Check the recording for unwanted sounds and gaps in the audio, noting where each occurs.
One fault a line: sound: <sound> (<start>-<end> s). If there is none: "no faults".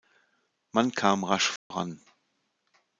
sound: dropout (1.6-1.7 s)